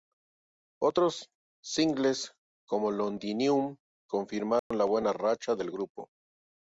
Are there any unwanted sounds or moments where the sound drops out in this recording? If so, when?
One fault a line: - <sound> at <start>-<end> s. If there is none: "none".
- dropout at 4.6-4.7 s